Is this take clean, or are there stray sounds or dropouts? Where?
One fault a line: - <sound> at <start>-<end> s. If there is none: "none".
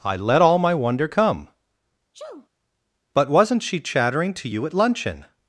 - sneeze at 2.1-2.5 s